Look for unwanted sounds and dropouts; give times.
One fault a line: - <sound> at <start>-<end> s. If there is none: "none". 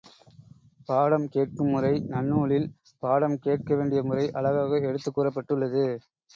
none